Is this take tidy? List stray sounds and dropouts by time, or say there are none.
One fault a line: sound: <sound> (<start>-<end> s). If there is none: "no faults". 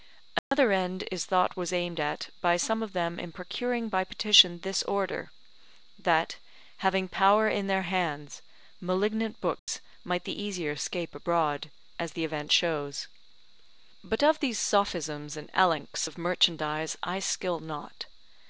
sound: dropout (0.4-0.5 s)
sound: dropout (9.6-9.7 s)